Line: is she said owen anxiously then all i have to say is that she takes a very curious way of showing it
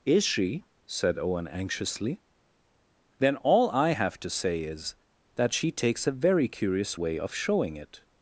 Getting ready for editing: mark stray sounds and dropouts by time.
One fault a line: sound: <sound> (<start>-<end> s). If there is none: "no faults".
no faults